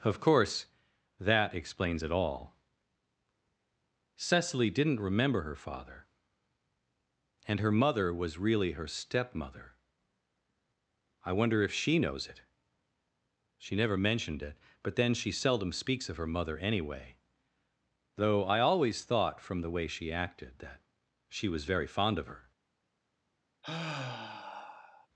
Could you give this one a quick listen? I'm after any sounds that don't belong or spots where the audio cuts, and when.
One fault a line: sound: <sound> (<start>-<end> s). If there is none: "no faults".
sound: sigh (23.6-25.1 s)